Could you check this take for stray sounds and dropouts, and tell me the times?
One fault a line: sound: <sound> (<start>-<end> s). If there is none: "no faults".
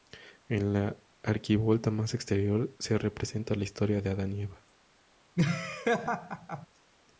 sound: laugh (5.4-6.7 s)